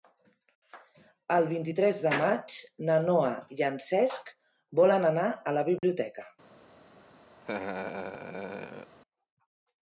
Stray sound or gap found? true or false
true